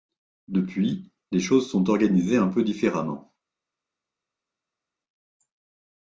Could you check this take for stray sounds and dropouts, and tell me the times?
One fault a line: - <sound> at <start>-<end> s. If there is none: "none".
none